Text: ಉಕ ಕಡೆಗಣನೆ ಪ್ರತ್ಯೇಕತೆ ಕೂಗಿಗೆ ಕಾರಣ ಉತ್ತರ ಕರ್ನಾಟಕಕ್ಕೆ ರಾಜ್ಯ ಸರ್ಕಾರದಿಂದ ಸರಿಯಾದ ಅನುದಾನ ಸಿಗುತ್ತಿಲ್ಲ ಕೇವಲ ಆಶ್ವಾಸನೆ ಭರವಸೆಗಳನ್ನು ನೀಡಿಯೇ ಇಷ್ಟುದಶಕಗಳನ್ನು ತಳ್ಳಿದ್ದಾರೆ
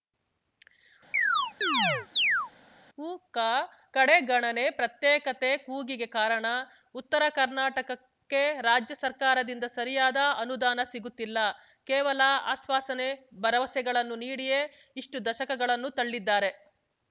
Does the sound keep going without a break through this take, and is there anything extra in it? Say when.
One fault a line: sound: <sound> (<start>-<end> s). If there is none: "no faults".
sound: chirp (1.1-2.5 s)